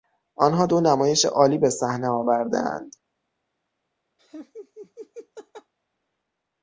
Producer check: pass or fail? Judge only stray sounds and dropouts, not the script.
fail